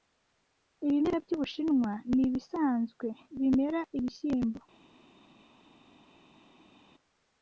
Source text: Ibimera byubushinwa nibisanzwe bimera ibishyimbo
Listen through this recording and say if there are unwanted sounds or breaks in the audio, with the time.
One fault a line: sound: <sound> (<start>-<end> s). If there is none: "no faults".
no faults